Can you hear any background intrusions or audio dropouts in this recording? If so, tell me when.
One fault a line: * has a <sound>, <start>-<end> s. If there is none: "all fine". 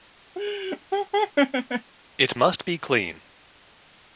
* has a laugh, 0.4-1.9 s